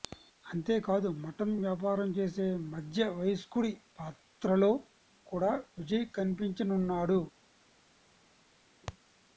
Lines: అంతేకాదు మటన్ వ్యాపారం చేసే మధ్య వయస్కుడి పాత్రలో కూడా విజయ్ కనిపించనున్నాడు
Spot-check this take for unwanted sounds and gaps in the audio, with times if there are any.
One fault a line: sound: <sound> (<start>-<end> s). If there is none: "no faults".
no faults